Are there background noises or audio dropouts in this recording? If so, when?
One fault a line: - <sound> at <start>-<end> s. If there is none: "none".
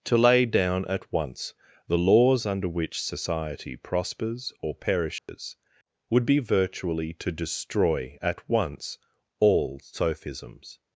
- dropout at 5.2-5.3 s